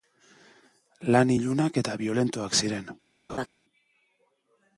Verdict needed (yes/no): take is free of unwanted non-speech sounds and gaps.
no